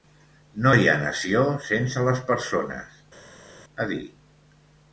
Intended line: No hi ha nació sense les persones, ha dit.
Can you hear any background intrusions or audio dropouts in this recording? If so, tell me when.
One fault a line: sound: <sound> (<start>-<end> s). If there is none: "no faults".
no faults